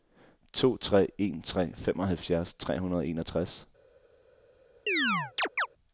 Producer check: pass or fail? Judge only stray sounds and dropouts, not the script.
fail